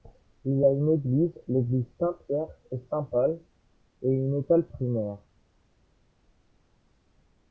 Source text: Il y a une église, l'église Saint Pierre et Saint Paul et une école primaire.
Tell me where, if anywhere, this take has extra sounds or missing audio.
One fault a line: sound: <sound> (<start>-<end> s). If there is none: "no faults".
no faults